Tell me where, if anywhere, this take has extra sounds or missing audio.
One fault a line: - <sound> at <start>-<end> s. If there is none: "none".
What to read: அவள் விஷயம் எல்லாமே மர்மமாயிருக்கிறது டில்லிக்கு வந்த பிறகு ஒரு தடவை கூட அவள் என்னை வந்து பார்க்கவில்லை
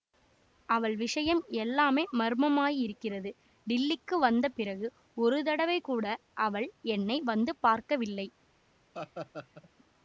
- laugh at 8.9-9.7 s